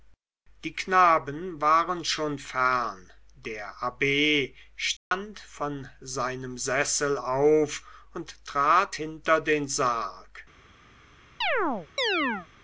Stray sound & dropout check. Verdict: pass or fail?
fail